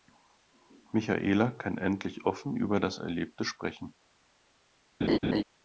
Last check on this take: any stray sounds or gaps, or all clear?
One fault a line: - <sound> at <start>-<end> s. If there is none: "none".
- laugh at 5.0-5.4 s